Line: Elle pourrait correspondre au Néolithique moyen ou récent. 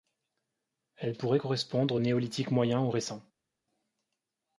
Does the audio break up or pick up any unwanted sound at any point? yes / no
no